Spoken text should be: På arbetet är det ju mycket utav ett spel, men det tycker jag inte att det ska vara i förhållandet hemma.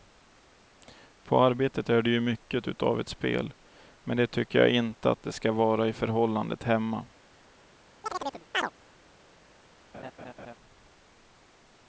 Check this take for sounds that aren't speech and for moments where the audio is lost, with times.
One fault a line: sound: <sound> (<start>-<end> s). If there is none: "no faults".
sound: chirp (8.0-8.7 s)
sound: laugh (9.9-10.5 s)